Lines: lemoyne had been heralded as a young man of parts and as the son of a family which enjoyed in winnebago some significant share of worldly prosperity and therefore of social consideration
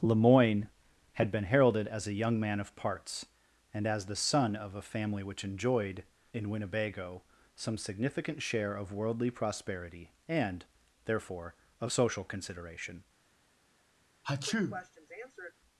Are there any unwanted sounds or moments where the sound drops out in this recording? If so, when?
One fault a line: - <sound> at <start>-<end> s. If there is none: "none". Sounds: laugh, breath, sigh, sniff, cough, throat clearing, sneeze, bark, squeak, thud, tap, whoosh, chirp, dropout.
- sneeze at 14.2-15.5 s